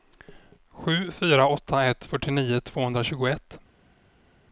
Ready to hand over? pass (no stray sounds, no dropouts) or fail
pass